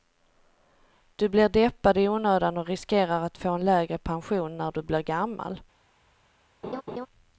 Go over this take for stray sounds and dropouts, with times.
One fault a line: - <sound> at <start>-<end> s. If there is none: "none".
- laugh at 6.6-7.1 s